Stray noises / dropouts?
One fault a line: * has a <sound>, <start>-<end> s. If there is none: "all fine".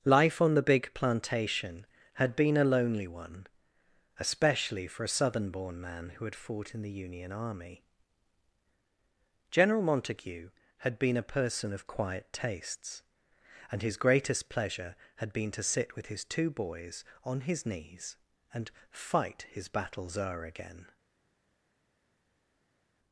all fine